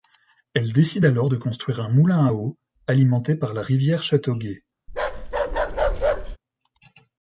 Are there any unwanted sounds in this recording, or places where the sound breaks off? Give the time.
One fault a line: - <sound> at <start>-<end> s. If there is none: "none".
- bark at 4.9-6.4 s